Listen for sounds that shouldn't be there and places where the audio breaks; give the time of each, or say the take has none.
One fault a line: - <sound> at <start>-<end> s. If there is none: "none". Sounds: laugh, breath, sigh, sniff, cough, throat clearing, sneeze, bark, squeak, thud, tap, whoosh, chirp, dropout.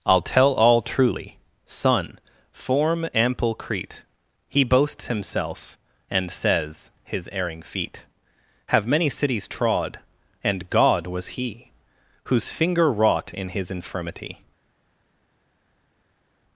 none